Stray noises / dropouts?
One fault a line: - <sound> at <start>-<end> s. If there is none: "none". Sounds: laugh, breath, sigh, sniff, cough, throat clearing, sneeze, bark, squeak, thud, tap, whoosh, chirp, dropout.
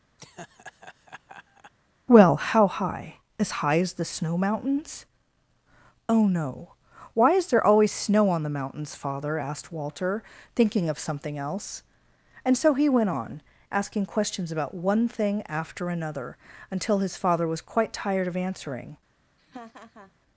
- laugh at 0.2-1.7 s
- laugh at 19.4-20.1 s